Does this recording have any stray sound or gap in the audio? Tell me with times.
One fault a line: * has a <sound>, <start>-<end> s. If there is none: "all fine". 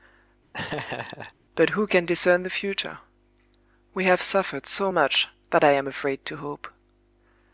* has a laugh, 0.5-1.3 s